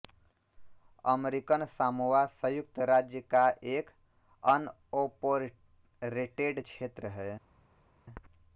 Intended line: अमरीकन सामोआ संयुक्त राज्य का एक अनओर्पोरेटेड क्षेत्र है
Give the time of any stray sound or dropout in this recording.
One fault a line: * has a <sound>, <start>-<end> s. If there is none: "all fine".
all fine